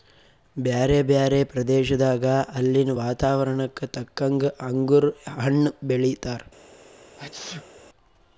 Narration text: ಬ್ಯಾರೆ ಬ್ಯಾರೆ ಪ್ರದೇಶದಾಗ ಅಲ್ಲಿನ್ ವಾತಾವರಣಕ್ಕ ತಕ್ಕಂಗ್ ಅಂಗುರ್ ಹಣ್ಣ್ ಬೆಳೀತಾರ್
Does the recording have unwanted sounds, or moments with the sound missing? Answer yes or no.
yes